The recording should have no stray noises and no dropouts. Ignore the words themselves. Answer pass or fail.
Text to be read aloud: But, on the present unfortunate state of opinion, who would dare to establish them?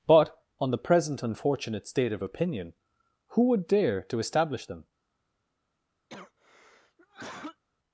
fail